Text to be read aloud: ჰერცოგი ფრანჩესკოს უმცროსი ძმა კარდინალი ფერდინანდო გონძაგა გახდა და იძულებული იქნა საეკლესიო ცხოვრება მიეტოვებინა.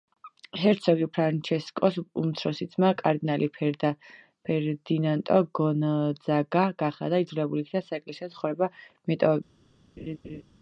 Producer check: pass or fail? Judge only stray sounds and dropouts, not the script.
fail